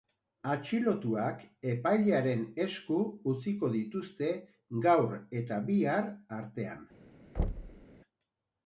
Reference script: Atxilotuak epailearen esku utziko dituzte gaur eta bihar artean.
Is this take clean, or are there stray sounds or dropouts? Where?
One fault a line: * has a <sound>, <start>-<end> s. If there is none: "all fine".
* has a thud, 7.4-7.9 s